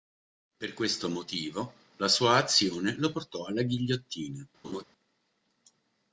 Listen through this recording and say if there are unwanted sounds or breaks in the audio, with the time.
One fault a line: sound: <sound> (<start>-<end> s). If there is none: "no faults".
sound: laugh (4.6-4.8 s)